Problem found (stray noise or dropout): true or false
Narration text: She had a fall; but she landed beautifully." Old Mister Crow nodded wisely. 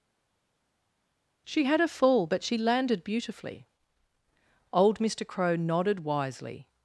false